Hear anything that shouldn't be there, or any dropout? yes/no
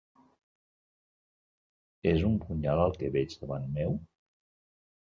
no